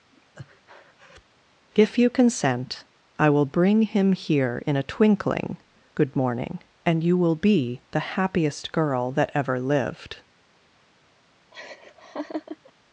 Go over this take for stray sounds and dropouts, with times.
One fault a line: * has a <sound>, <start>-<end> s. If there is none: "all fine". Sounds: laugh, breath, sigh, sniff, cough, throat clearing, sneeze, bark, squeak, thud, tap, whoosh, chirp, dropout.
* has a breath, 0.1-1.3 s
* has a laugh, 11.5-12.7 s